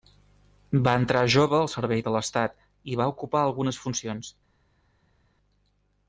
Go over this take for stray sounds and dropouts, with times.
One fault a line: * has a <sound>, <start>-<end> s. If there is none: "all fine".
all fine